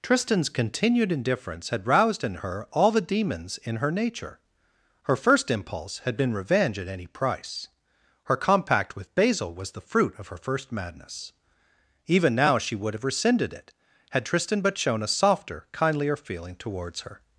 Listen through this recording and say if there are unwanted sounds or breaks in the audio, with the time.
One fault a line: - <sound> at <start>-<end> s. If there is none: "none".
none